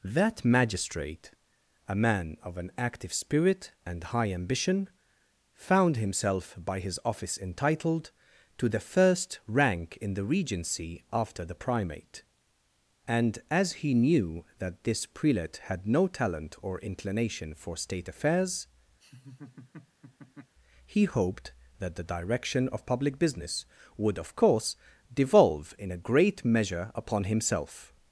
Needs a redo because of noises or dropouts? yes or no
yes